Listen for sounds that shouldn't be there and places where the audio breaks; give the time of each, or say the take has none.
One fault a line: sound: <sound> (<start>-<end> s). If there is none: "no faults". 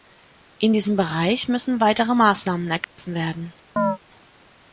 sound: dropout (2.8-3.0 s)
sound: chirp (3.8-4.0 s)